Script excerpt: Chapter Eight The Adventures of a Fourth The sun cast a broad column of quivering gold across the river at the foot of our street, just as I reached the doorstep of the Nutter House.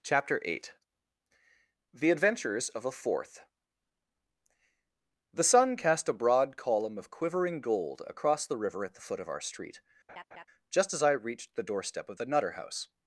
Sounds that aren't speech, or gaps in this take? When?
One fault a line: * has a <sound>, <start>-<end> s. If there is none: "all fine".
* has a laugh, 10.1-10.5 s